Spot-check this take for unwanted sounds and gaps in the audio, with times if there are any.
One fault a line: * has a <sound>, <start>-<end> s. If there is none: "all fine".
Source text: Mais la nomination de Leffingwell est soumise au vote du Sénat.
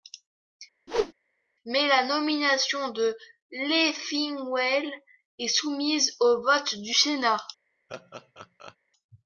* has a whoosh, 0.9-1.1 s
* has a laugh, 7.9-8.8 s